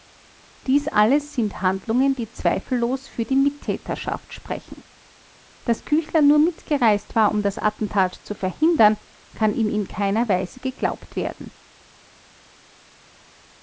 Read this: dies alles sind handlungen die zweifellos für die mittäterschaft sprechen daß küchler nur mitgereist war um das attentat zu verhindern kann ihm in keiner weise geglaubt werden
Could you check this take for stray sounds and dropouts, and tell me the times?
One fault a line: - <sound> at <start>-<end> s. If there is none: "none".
none